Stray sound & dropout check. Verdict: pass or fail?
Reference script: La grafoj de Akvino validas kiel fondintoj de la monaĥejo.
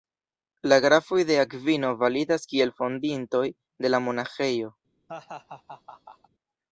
fail